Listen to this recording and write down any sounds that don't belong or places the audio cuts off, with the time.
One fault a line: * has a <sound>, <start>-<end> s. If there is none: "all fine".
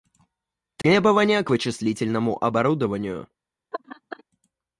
* has a dropout, 0.8-0.8 s
* has a laugh, 3.7-4.2 s